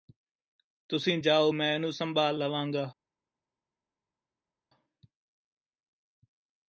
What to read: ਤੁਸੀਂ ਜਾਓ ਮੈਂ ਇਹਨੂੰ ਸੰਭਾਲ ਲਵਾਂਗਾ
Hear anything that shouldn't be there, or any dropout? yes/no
no